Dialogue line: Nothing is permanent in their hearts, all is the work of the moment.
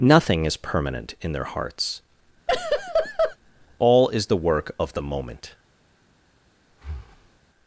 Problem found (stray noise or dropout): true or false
true